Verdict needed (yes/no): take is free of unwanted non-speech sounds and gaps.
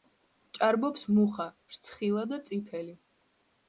yes